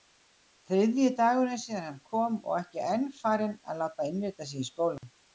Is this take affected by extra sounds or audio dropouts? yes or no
yes